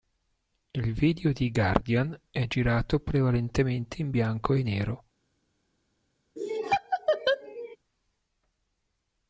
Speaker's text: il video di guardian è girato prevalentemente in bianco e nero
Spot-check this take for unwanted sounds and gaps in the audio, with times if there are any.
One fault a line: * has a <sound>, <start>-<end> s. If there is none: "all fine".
* has a laugh, 6.4-7.8 s